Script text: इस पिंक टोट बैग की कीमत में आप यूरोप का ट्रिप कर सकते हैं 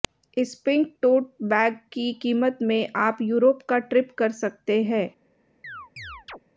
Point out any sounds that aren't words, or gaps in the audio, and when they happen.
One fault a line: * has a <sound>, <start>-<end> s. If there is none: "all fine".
* has a chirp, 5.6-6.4 s